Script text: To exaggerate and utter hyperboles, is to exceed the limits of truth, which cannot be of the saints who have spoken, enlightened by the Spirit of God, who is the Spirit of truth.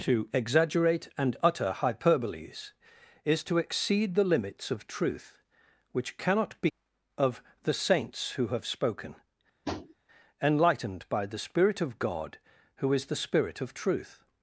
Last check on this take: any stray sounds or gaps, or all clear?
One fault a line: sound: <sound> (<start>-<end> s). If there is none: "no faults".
sound: tap (9.6-9.9 s)